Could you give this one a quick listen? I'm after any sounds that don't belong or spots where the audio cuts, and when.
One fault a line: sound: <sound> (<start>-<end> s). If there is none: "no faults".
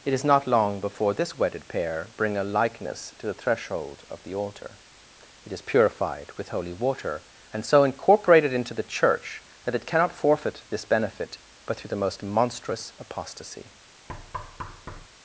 sound: thud (14.1-15.1 s)